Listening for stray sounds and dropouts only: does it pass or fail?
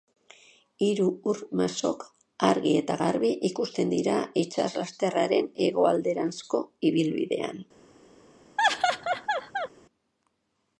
fail